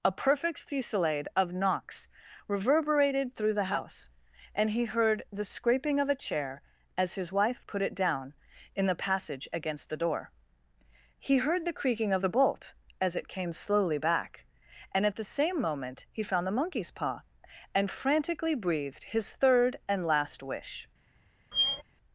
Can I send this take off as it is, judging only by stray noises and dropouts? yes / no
no